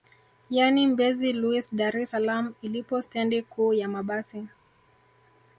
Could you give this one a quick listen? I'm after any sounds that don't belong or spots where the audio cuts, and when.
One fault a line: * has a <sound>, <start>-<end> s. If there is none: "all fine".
all fine